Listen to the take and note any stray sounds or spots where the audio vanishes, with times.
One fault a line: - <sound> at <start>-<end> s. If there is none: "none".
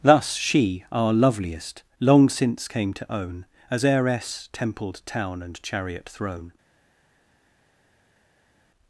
none